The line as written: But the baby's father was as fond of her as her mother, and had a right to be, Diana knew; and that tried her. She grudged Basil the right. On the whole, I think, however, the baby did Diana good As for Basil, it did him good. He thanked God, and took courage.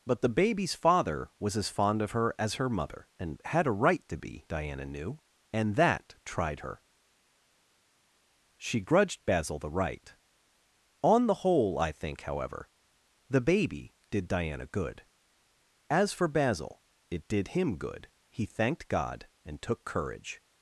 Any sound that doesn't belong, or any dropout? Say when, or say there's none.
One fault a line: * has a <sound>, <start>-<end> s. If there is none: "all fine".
all fine